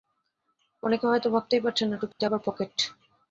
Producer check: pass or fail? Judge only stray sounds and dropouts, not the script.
fail